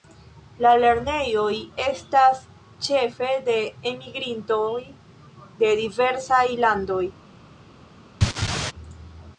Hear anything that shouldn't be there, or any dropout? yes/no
yes